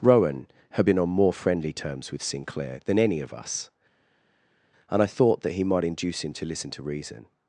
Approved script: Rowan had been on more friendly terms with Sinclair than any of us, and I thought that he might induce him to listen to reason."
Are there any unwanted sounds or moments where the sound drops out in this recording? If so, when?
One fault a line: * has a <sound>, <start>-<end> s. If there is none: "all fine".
all fine